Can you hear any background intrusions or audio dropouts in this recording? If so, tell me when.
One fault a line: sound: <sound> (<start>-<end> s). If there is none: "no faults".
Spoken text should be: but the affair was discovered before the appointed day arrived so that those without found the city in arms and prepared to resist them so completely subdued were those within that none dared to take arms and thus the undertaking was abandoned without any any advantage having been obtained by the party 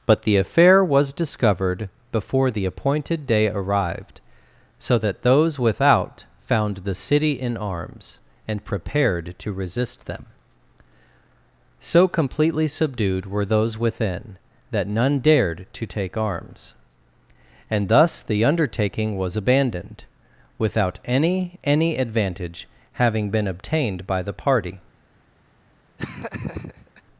sound: laugh (26.0-27.0 s)